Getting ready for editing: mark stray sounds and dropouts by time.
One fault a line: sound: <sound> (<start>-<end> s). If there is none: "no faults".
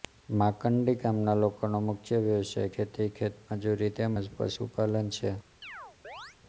sound: chirp (5.6-6.4 s)